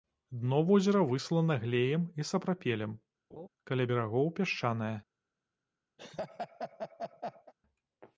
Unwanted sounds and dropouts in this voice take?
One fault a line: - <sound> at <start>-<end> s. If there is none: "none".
- laugh at 3.3-3.5 s
- laugh at 6.0-7.5 s